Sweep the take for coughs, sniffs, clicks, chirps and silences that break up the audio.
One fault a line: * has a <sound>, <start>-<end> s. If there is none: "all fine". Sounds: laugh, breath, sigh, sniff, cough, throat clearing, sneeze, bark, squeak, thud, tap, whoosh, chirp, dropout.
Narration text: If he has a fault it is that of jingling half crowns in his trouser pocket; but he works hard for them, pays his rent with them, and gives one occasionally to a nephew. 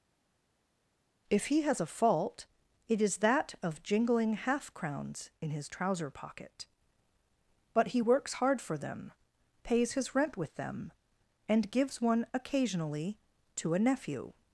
all fine